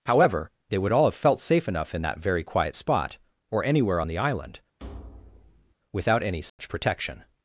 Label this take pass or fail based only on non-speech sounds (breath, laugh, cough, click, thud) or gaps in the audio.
fail